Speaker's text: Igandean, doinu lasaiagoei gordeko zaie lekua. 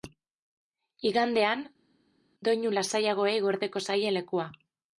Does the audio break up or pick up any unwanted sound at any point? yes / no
no